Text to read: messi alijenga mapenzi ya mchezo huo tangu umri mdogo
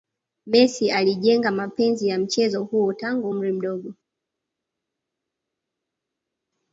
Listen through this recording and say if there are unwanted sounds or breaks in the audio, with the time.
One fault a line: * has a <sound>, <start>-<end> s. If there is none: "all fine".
all fine